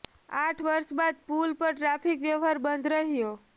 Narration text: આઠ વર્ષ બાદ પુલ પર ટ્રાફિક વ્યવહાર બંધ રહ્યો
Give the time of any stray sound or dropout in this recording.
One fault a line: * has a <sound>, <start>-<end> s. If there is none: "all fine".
all fine